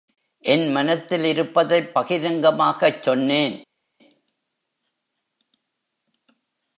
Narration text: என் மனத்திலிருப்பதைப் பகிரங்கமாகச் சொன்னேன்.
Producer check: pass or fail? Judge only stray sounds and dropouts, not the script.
pass